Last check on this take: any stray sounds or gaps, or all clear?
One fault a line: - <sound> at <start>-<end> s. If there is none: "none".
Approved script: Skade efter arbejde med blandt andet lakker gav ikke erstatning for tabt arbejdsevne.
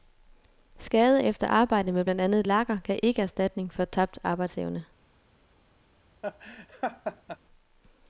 - laugh at 6.2-7.4 s